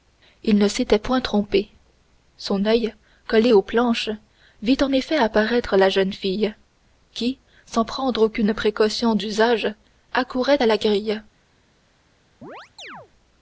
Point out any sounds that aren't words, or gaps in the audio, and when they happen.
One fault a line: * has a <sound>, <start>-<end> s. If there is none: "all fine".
* has a chirp, 12.4-13.1 s